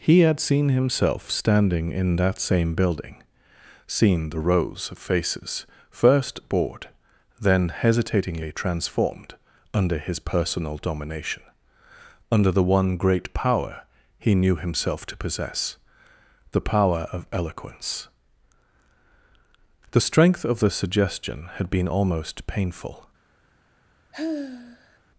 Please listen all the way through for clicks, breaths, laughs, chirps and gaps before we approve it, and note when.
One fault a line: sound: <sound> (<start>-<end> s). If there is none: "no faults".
sound: sigh (24.1-25.0 s)